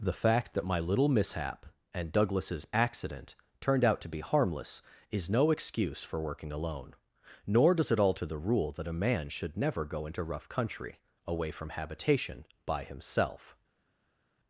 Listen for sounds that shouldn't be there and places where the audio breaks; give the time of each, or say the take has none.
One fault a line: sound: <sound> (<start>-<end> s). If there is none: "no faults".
no faults